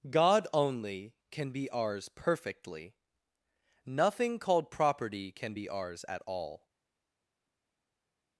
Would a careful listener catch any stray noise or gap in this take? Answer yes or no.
no